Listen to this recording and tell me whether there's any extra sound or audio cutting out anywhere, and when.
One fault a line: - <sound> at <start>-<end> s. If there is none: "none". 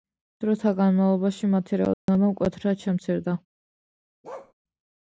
- dropout at 1.9-2.1 s
- bark at 4.2-4.5 s